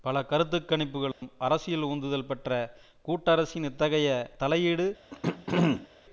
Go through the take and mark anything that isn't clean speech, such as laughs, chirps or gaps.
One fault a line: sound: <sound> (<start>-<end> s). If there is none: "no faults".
sound: dropout (1.1-1.2 s)
sound: throat clearing (5.1-5.9 s)